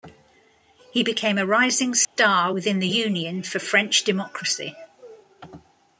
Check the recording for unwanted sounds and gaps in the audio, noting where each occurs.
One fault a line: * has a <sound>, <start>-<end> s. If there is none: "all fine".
* has a dropout, 2.0-2.2 s